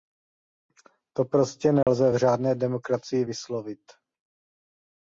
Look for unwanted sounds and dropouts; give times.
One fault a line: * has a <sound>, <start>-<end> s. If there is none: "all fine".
* has a dropout, 1.8-1.9 s